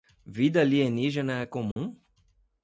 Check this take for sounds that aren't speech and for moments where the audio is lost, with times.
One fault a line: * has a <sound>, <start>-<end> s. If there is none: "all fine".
* has a dropout, 1.7-1.8 s